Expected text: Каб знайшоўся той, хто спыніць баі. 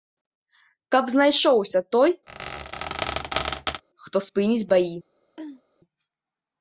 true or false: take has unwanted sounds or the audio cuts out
true